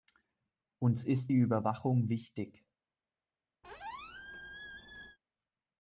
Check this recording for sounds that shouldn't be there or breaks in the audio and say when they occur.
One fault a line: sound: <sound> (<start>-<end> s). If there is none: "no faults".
sound: squeak (3.6-5.2 s)